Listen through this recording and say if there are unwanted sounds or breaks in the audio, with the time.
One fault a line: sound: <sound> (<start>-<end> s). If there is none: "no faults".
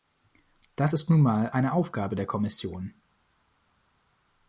no faults